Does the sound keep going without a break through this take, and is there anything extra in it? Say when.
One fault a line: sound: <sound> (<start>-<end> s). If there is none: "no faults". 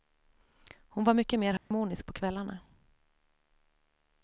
sound: dropout (1.6-1.7 s)